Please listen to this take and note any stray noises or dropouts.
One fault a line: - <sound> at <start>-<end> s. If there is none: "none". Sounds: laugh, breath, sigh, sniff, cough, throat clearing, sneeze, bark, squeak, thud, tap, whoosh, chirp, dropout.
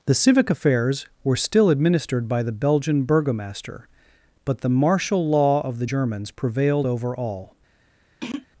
- throat clearing at 8.2-8.5 s